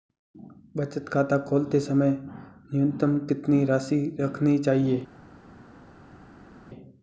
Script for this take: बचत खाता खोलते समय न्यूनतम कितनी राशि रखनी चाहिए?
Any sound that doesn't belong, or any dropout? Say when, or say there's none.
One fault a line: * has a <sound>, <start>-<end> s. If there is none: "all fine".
all fine